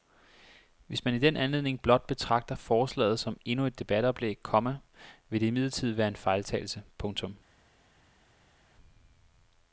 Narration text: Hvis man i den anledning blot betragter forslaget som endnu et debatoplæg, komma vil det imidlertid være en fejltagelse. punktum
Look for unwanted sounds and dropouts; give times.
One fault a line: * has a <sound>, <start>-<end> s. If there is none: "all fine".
all fine